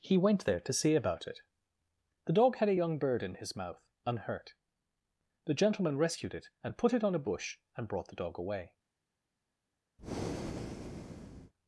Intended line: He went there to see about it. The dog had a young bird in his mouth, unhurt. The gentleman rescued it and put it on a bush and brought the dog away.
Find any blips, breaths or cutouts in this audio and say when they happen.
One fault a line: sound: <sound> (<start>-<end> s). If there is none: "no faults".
sound: breath (10.0-11.5 s)